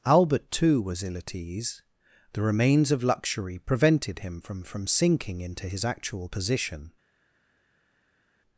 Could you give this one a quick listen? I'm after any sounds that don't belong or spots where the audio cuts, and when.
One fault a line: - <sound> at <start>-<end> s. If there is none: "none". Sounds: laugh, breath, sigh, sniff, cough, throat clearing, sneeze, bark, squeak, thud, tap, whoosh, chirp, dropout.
none